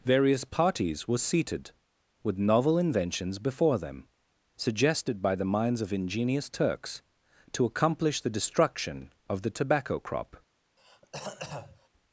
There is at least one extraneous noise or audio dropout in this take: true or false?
true